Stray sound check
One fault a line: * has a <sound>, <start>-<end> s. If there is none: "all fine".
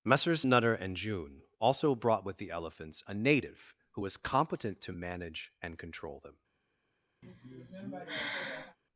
* has a sigh, 7.2-8.8 s